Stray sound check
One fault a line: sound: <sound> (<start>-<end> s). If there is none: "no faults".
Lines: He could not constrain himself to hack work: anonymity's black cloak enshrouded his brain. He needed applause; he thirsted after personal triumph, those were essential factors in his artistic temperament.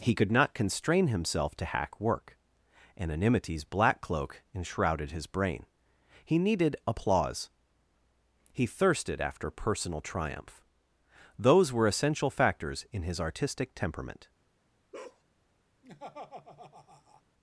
sound: bark (14.9-15.2 s)
sound: laugh (15.8-17.2 s)